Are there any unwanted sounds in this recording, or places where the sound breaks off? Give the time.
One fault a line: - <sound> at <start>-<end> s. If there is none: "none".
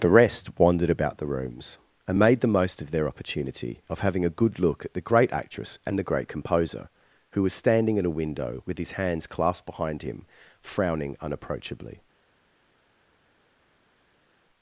none